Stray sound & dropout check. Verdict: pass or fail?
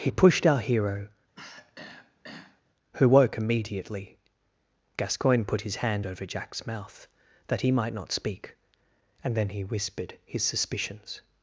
fail